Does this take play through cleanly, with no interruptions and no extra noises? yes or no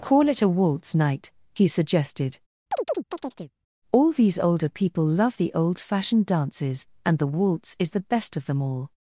no